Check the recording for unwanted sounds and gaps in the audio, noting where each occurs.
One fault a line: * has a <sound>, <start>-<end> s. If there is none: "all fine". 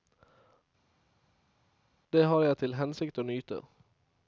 all fine